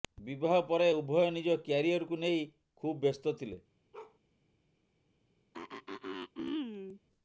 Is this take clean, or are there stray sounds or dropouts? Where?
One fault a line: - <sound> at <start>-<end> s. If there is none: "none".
- bark at 3.9-4.2 s
- throat clearing at 5.5-7.0 s